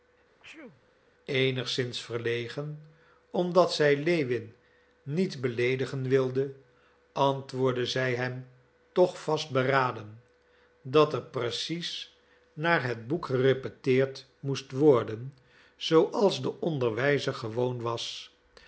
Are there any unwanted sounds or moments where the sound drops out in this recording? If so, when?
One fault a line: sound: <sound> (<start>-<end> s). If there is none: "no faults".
sound: sneeze (0.4-0.9 s)